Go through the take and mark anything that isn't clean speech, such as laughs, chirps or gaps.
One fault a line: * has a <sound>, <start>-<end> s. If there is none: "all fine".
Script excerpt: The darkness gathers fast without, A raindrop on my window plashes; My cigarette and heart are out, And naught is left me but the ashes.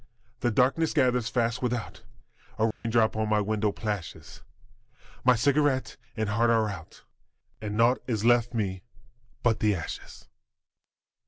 * has a dropout, 2.7-2.8 s